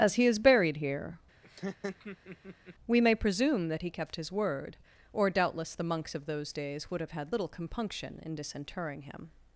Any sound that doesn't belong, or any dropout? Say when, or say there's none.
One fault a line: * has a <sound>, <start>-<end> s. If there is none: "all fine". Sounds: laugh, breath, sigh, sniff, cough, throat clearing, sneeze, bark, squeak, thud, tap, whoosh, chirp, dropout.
* has a laugh, 1.4-2.8 s